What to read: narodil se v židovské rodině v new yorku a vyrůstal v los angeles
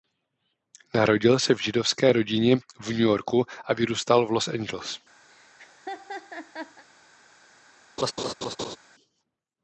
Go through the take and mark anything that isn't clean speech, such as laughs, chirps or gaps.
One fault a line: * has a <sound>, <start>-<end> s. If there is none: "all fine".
* has a laugh, 5.3-6.8 s
* has a laugh, 8.0-8.8 s